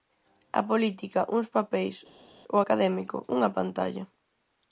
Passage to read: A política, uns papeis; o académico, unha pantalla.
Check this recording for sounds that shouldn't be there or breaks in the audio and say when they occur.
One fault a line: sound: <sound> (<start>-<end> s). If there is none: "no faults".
no faults